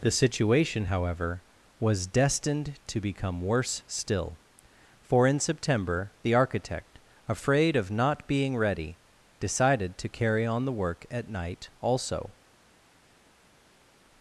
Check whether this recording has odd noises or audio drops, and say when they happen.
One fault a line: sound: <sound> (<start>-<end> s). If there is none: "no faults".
no faults